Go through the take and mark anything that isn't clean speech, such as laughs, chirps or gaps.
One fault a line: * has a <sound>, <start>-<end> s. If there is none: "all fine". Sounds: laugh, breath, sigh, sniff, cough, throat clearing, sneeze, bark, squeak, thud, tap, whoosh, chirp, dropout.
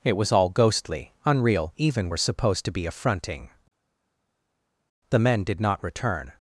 all fine